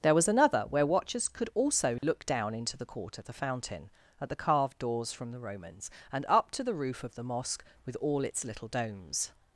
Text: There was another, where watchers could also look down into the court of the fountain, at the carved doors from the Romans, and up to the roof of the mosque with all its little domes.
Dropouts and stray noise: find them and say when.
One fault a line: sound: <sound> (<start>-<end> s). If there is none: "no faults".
sound: dropout (2.0-2.0 s)